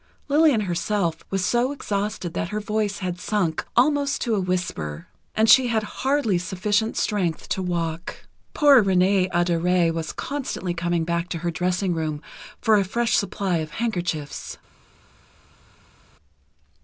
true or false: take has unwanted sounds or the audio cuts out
false